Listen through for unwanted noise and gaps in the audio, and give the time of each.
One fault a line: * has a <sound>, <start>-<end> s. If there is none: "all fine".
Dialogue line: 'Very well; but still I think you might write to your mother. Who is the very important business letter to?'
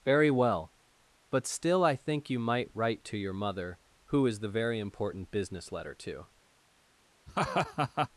* has a laugh, 7.3-8.1 s